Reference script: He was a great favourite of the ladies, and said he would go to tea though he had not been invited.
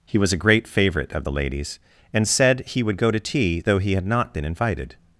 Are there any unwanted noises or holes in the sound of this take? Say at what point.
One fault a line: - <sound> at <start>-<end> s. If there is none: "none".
none